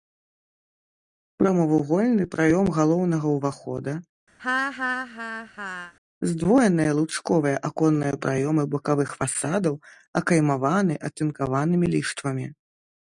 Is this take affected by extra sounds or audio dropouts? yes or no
yes